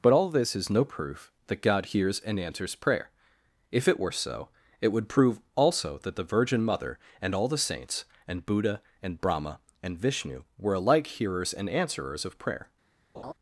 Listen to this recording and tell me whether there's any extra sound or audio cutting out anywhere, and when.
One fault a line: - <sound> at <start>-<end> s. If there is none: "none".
- laugh at 13.1-13.3 s